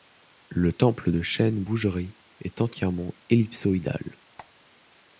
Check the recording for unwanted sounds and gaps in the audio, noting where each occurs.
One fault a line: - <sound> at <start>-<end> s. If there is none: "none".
- squeak at 4.4-4.5 s